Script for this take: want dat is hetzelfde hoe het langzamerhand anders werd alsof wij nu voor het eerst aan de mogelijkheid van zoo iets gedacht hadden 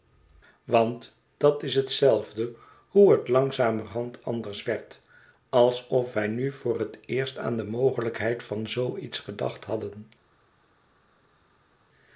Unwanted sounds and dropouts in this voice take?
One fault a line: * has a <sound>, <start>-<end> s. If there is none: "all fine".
all fine